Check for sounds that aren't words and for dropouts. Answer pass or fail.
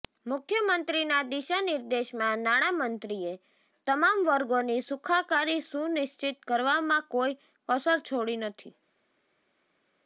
pass